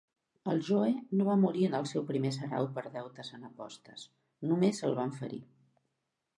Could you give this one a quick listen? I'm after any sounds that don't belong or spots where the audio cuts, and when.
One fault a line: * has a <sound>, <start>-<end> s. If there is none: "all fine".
all fine